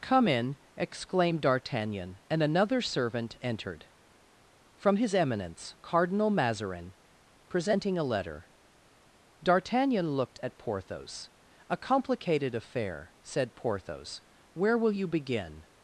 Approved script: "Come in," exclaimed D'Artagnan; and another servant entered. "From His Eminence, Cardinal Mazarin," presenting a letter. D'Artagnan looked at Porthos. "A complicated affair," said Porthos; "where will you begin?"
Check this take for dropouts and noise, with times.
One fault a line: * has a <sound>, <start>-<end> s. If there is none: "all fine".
all fine